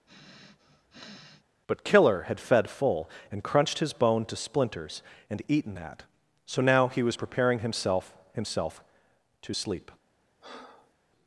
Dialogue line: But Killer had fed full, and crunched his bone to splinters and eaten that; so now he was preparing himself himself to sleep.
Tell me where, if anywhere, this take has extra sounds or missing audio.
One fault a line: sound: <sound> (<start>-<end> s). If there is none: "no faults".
sound: sniff (0.1-1.4 s)
sound: breath (10.4-10.9 s)